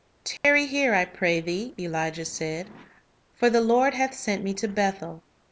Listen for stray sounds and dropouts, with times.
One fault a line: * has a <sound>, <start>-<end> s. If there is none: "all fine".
* has a dropout, 0.4-0.4 s